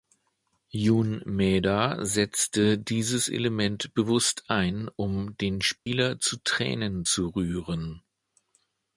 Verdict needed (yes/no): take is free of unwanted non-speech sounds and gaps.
no